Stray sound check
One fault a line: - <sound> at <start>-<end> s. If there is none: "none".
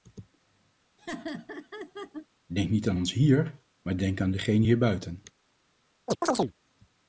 - laugh at 1.0-2.3 s
- chirp at 6.1-6.5 s